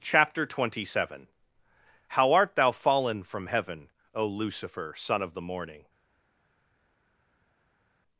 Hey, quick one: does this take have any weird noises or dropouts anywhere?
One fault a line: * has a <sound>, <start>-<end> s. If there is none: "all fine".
all fine